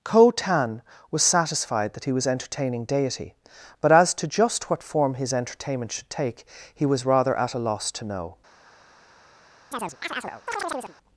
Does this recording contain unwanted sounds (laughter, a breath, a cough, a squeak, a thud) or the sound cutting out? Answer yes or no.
yes